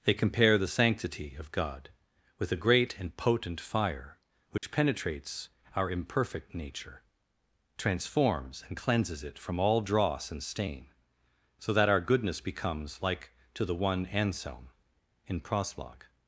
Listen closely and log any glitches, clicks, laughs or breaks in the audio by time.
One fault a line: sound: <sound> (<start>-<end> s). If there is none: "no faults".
sound: dropout (4.6-4.6 s)